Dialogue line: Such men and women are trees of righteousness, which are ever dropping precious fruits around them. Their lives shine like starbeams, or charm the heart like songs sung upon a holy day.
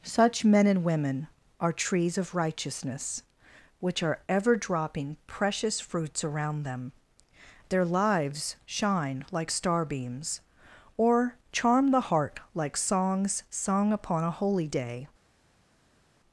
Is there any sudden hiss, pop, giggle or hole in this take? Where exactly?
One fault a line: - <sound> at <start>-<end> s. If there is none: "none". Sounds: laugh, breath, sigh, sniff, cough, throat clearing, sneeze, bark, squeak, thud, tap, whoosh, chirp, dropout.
none